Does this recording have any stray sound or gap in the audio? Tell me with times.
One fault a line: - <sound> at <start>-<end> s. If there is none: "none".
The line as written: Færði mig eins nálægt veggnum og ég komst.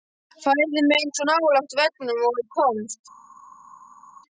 none